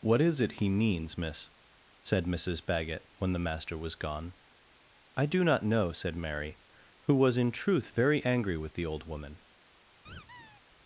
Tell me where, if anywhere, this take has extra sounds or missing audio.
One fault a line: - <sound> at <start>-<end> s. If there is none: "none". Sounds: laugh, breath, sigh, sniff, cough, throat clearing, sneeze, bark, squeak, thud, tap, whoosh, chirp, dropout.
- squeak at 10.1-10.6 s